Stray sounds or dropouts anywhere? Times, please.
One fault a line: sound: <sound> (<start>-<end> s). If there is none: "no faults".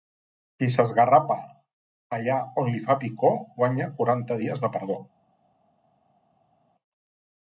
no faults